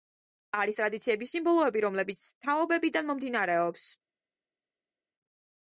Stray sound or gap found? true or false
false